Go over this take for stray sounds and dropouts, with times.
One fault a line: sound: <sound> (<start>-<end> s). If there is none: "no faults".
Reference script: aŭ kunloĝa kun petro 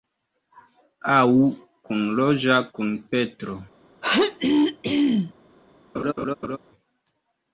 sound: throat clearing (4.0-5.3 s)
sound: laugh (5.9-6.6 s)